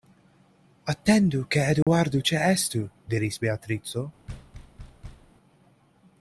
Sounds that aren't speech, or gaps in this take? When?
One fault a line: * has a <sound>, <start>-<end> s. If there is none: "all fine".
* has a dropout, 1.8-1.9 s
* has a thud, 4.3-5.3 s